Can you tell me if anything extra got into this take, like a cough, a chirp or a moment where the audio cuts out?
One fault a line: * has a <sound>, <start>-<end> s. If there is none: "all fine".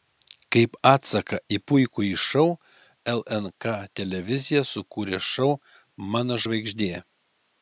all fine